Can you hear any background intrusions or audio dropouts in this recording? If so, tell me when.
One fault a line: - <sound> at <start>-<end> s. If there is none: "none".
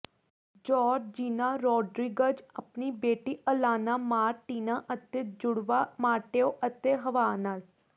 none